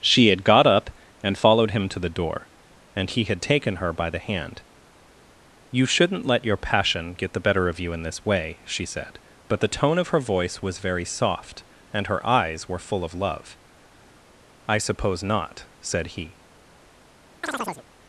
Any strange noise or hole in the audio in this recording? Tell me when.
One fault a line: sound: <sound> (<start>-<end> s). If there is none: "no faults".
sound: chirp (17.4-17.8 s)